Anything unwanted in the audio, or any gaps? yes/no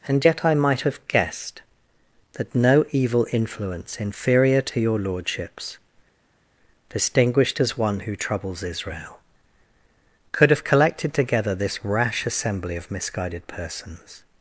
no